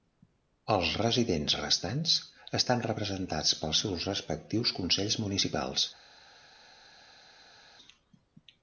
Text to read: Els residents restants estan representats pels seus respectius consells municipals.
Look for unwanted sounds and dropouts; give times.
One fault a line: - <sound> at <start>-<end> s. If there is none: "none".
none